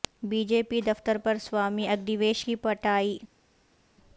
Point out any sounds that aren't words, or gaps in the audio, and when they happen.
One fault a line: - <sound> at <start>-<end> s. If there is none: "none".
none